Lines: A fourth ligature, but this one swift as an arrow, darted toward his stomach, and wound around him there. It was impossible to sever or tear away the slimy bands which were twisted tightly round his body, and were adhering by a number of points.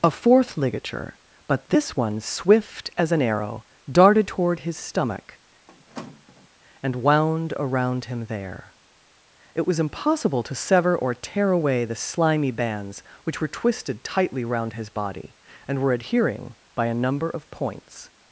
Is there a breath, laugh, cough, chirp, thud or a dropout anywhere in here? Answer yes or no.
yes